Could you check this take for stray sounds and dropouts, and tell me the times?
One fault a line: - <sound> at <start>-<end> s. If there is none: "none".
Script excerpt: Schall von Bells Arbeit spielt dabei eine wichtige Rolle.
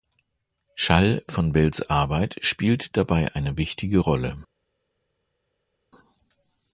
none